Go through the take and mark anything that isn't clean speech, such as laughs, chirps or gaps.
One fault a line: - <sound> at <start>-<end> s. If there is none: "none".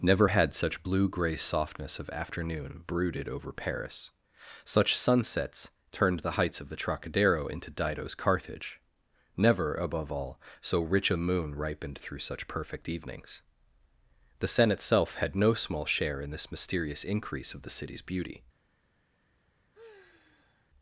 - sigh at 19.7-20.7 s